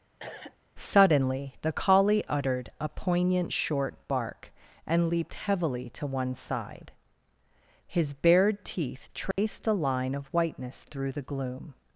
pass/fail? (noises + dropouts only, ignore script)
fail